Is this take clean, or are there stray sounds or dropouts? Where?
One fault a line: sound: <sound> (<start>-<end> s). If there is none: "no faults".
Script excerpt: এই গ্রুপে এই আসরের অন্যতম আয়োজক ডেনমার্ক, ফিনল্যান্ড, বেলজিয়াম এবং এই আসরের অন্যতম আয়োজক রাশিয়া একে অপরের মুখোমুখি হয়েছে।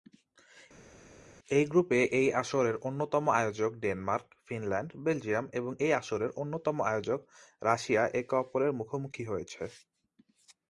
no faults